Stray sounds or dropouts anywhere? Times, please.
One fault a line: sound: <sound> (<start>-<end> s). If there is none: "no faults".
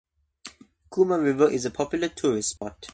sound: dropout (2.6-2.6 s)